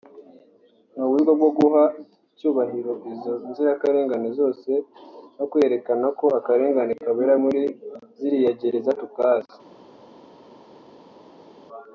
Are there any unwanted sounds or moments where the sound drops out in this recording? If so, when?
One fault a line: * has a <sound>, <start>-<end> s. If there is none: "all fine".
all fine